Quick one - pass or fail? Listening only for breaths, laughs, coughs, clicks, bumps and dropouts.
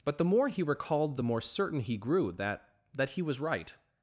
pass